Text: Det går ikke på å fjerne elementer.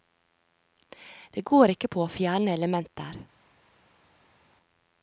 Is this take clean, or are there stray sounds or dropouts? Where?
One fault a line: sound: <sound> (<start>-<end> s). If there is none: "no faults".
no faults